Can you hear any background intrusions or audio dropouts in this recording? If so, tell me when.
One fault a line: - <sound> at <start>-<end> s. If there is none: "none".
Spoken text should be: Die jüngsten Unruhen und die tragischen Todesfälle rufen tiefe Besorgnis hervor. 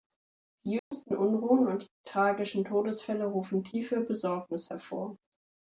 - dropout at 0.8-0.9 s